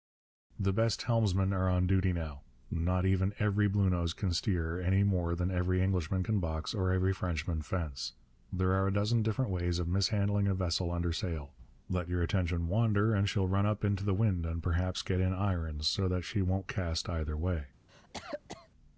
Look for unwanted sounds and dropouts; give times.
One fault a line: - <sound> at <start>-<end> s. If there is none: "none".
- cough at 17.9-18.7 s